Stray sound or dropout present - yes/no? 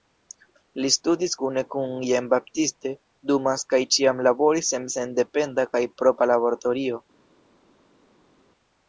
no